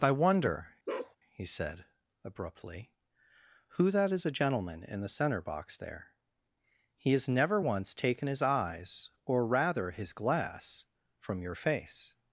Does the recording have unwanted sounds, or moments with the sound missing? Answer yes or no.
yes